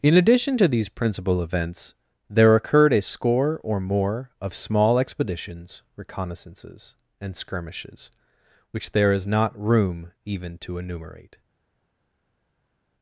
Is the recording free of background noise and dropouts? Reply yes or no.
yes